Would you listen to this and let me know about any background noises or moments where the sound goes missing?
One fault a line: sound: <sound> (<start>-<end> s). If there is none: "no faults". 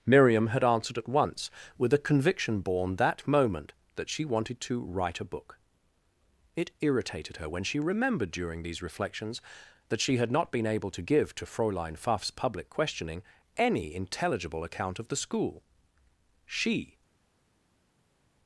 no faults